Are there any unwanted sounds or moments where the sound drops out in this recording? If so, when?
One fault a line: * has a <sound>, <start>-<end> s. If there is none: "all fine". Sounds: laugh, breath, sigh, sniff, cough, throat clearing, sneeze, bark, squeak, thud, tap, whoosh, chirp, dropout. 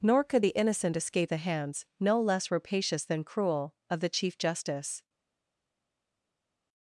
all fine